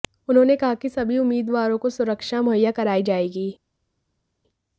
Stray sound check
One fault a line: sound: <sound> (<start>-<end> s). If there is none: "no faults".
no faults